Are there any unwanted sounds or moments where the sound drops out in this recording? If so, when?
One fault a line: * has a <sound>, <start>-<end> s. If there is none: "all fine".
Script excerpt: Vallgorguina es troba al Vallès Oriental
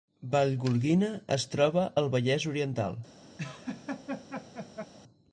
* has a laugh, 3.4-4.9 s